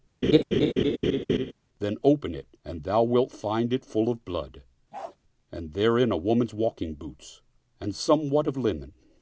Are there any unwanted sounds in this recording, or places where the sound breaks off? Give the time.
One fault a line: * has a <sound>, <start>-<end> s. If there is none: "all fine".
* has a laugh, 0.2-1.5 s
* has a bark, 4.9-5.2 s